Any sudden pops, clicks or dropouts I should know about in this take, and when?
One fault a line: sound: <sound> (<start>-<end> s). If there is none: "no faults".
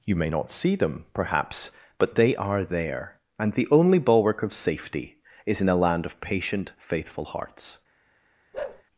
sound: bark (8.5-8.8 s)